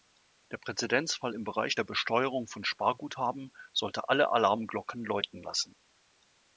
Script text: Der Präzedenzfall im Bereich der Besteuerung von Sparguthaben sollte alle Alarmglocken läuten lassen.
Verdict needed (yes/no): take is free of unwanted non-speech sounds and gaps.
yes